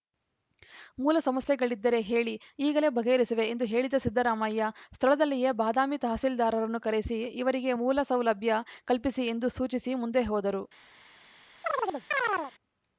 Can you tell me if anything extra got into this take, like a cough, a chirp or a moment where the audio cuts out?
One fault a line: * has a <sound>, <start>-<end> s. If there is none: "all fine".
* has a chirp, 11.6-12.5 s